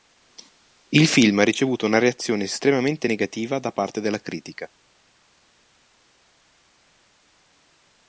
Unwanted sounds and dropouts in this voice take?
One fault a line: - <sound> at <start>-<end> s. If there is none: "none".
none